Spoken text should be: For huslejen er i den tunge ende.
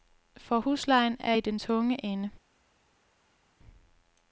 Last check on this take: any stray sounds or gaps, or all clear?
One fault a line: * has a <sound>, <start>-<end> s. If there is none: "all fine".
all fine